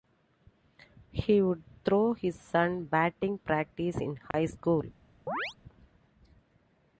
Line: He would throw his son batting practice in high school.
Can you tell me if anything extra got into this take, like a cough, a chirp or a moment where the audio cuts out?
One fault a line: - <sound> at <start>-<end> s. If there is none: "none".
- dropout at 4.3-4.3 s
- chirp at 5.3-5.5 s